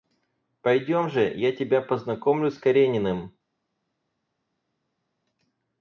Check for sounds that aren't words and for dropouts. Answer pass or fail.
pass